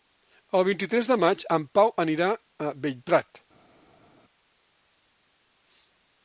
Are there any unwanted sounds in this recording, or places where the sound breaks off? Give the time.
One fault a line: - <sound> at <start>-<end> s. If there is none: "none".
none